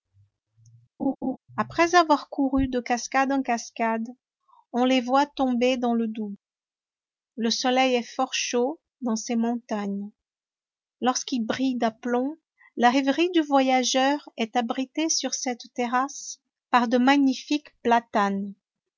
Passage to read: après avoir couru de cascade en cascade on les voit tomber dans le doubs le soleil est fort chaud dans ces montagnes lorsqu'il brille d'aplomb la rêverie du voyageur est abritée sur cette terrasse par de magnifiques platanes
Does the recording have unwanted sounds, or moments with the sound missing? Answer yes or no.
yes